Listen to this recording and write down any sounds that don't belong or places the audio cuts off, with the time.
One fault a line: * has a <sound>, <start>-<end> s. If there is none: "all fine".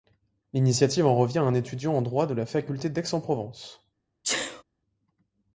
* has a sneeze, 4.2-4.6 s